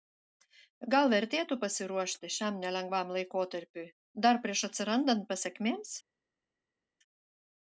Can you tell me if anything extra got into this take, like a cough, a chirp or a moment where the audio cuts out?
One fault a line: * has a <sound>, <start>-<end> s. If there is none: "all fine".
all fine